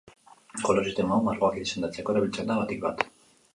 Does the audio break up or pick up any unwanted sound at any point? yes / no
no